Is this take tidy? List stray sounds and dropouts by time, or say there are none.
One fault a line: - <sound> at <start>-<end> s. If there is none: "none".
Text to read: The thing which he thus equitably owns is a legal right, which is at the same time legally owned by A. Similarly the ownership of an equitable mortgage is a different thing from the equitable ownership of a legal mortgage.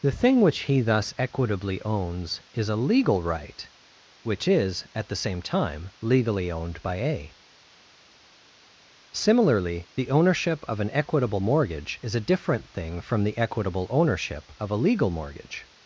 none